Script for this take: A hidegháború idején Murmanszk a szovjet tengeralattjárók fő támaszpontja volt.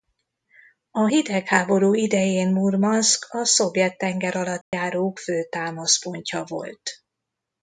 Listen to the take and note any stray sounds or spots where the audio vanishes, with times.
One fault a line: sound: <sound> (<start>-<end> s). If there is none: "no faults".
sound: dropout (4.6-4.7 s)